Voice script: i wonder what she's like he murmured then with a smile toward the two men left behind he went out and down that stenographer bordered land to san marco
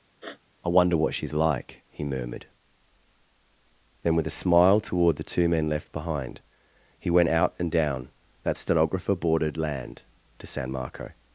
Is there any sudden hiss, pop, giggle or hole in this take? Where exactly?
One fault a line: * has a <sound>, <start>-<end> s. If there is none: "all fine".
* has a sniff, 0.2-0.4 s